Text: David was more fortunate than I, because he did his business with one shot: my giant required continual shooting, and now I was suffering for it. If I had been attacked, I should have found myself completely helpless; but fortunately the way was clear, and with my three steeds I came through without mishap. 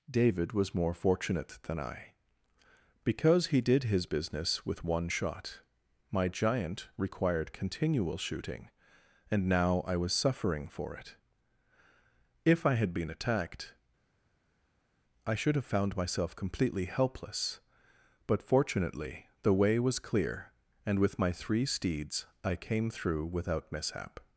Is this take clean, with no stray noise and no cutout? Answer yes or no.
yes